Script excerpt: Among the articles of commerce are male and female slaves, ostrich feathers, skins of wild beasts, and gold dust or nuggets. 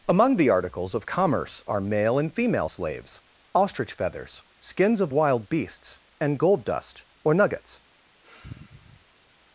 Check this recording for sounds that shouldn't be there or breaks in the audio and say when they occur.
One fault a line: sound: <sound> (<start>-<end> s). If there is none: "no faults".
sound: sigh (8.2-9.4 s)